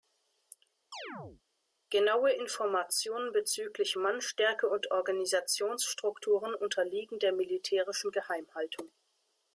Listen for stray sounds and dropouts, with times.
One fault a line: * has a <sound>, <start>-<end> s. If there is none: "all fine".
* has a chirp, 0.9-1.4 s